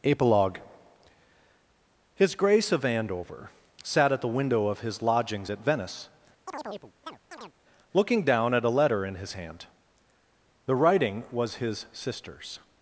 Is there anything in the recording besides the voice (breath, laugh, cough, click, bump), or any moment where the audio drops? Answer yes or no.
yes